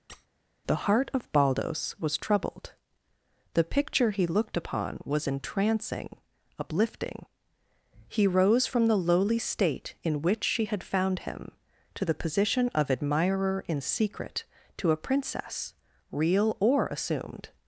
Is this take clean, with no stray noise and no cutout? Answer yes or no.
no